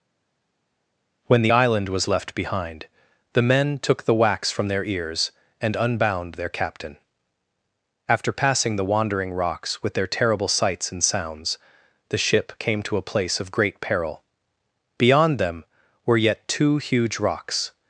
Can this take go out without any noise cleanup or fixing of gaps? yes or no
yes